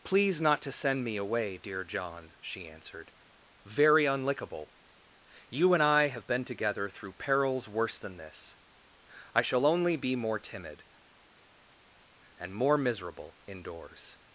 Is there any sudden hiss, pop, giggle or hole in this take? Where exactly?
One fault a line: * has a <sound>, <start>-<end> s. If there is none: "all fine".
all fine